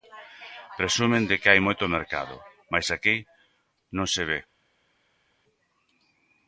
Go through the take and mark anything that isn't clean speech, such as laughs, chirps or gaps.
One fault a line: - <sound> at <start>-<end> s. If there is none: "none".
none